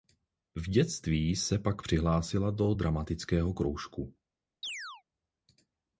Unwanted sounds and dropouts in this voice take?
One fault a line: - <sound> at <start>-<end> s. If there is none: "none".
- chirp at 4.6-5.0 s